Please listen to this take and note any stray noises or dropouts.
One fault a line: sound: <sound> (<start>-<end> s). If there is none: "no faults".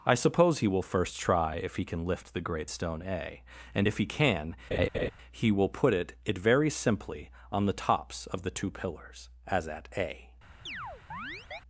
sound: laugh (4.7-5.1 s)
sound: chirp (10.7-11.6 s)